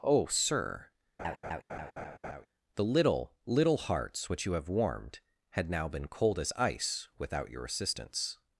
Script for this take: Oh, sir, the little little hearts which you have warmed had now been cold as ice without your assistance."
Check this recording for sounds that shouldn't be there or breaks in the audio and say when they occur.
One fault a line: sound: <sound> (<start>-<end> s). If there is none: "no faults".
sound: laugh (1.2-2.5 s)